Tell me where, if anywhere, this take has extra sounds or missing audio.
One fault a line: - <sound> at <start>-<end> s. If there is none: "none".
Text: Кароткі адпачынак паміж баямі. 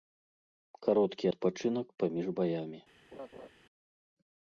- laugh at 3.1-3.5 s